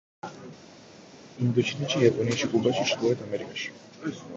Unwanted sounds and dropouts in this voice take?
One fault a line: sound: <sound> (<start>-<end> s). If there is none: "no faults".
no faults